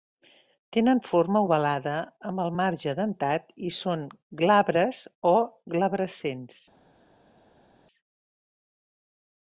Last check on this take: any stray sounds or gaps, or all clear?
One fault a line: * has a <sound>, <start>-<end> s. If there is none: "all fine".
all fine